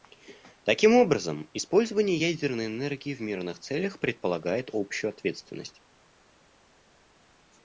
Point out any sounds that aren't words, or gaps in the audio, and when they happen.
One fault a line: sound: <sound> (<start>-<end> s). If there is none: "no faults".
no faults